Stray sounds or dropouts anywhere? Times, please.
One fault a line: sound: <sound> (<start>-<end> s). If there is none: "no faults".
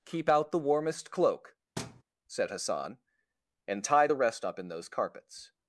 sound: thud (1.8-2.0 s)